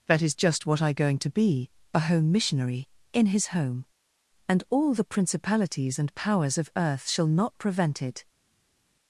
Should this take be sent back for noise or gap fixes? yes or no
no